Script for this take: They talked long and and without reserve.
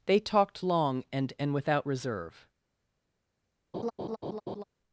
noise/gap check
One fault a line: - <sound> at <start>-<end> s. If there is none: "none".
- laugh at 3.7-4.6 s